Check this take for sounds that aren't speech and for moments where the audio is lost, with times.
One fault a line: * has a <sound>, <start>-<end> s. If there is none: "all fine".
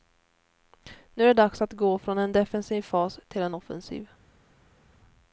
all fine